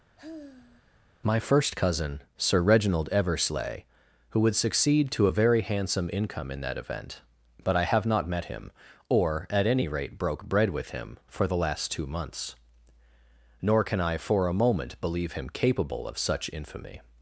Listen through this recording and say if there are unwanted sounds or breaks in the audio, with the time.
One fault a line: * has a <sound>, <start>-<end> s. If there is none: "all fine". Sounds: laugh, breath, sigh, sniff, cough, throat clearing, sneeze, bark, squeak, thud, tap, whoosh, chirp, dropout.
* has a sigh, 0.2-1.0 s